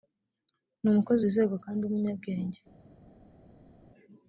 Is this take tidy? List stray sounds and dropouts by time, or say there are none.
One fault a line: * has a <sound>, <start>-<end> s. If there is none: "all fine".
all fine